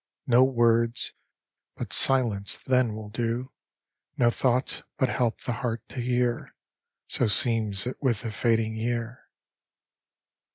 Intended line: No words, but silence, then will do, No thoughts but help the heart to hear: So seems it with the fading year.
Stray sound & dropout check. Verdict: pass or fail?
pass